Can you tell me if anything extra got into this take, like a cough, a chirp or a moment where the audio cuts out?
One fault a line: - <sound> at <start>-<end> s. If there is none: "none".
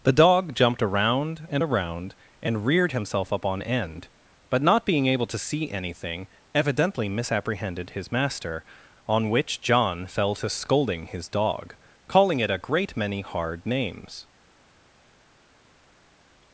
none